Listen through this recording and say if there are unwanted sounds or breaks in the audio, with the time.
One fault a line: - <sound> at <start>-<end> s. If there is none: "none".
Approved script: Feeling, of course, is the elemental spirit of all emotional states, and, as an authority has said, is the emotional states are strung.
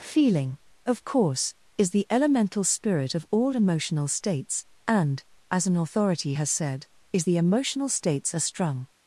none